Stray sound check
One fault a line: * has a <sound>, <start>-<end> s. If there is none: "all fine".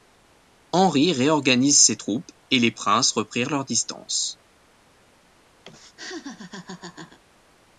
* has a laugh, 5.6-7.2 s